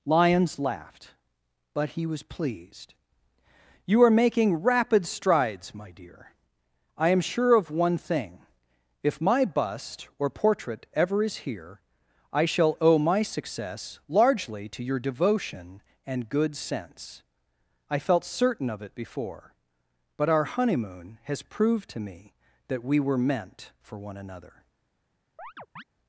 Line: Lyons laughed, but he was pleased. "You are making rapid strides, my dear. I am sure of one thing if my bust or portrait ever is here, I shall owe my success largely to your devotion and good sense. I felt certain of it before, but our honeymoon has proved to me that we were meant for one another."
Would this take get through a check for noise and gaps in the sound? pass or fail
fail